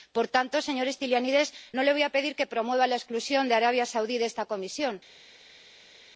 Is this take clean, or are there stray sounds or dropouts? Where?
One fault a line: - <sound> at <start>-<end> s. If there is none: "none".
none